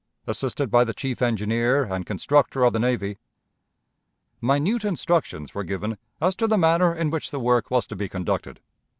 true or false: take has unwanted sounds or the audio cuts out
false